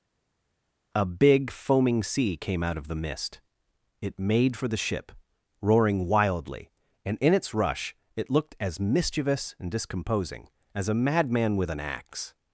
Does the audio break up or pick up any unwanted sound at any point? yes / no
no